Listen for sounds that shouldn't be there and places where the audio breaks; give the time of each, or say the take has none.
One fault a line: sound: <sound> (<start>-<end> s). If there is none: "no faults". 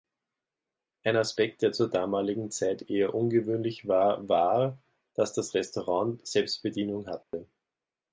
sound: dropout (7.2-7.3 s)